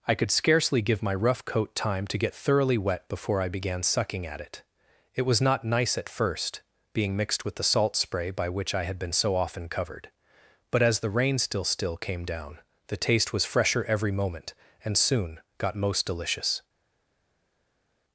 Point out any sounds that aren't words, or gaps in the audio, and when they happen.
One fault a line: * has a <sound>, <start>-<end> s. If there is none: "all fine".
all fine